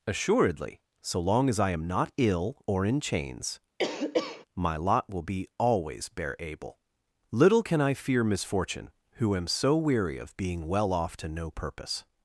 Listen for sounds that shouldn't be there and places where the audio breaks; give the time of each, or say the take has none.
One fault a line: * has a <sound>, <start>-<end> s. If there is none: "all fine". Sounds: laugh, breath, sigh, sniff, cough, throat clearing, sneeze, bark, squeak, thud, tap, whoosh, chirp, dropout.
* has a cough, 3.8-4.5 s